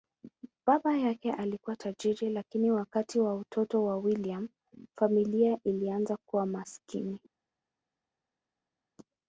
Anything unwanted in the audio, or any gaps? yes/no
no